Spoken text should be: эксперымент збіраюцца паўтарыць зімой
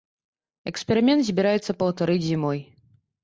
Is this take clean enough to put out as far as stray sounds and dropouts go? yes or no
yes